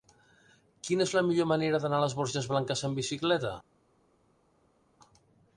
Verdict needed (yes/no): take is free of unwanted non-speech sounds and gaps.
yes